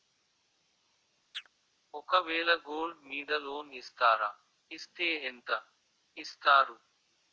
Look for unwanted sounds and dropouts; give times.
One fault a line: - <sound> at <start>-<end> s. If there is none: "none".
- chirp at 1.3-1.5 s